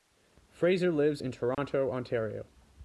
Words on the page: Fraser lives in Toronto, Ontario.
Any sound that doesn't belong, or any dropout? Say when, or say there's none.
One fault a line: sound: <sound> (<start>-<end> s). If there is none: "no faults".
sound: dropout (1.5-1.6 s)